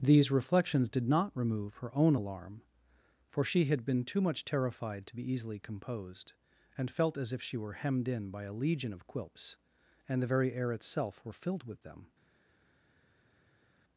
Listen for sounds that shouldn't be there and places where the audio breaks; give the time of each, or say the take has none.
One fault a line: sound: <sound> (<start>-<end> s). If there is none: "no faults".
no faults